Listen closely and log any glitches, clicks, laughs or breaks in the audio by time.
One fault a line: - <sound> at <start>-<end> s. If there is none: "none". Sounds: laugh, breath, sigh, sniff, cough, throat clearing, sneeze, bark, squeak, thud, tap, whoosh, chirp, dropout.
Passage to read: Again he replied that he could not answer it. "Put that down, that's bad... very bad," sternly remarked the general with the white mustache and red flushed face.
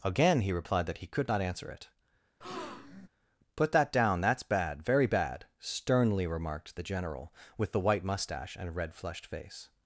- breath at 2.4-3.1 s